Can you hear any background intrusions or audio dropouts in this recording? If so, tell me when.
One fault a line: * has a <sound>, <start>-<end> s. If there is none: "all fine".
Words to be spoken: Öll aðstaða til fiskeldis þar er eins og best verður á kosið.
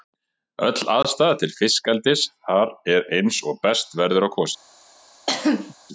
* has a cough, 5.3-5.7 s